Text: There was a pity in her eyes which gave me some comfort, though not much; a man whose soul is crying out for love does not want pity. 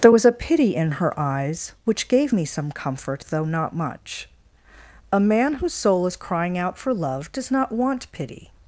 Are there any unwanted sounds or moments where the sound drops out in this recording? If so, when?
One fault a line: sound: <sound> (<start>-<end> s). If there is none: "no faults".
no faults